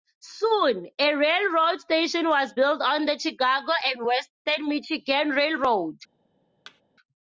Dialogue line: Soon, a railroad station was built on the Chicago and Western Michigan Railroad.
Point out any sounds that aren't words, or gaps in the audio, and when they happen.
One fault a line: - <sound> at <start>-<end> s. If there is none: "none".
- thud at 6.7-6.8 s